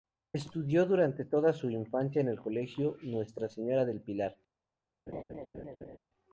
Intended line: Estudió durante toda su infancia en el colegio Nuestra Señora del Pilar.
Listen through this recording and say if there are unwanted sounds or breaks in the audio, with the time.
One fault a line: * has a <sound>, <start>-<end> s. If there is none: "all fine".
* has a laugh, 5.1-6.0 s